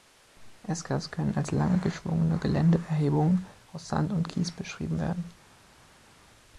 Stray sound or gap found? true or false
false